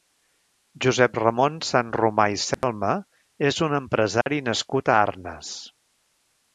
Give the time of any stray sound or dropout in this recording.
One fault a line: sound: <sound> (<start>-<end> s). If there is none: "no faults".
sound: dropout (2.5-2.6 s)
sound: dropout (4.2-4.3 s)